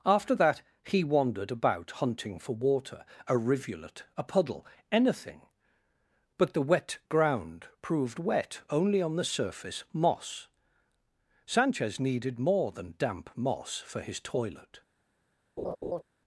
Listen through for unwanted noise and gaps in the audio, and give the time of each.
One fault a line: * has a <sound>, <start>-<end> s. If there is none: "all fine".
* has a laugh, 15.6-16.0 s